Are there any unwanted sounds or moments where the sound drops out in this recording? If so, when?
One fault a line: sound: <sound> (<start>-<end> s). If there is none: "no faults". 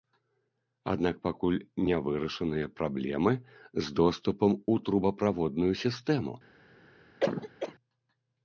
sound: cough (7.2-7.7 s)